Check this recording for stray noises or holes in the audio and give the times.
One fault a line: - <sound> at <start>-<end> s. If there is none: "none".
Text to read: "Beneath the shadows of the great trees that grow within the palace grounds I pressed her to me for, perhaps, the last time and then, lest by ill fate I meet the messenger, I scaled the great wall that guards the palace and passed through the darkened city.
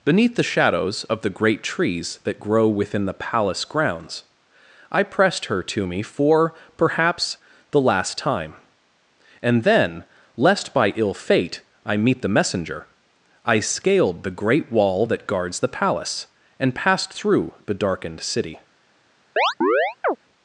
- chirp at 19.4-20.2 s